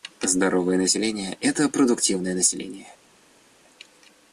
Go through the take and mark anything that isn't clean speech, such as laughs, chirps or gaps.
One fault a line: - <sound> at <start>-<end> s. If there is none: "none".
none